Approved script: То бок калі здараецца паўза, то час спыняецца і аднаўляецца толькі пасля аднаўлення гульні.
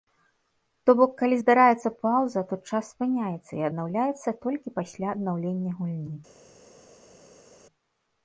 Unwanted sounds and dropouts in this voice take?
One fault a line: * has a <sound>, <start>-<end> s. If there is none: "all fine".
all fine